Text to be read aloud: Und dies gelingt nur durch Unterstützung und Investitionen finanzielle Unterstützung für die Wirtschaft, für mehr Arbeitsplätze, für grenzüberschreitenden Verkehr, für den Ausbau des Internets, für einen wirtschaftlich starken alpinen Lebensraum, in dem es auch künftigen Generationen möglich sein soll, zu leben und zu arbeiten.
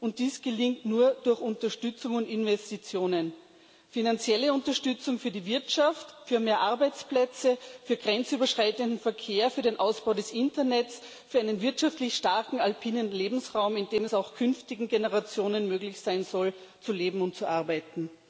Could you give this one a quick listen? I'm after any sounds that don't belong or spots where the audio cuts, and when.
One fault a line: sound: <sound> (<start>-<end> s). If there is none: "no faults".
no faults